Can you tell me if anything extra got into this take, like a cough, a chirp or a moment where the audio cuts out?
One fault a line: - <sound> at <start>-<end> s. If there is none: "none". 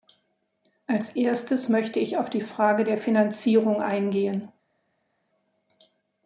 none